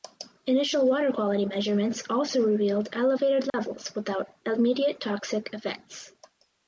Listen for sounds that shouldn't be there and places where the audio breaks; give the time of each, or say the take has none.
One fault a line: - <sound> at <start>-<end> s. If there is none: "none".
- dropout at 3.5-3.5 s